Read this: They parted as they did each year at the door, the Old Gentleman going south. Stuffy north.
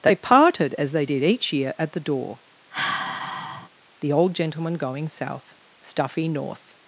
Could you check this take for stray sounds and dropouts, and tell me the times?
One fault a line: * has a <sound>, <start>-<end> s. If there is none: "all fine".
* has a sigh, 2.7-3.7 s